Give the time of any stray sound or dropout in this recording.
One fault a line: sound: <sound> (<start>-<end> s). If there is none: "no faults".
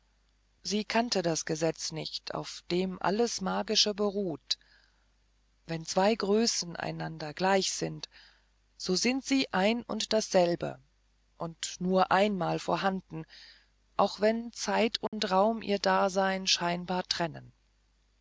sound: dropout (15.1-15.1 s)